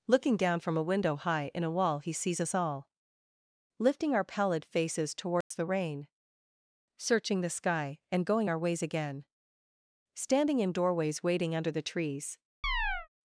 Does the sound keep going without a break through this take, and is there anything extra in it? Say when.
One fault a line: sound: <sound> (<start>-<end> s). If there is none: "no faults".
sound: dropout (5.4-5.5 s)
sound: chirp (12.6-13.1 s)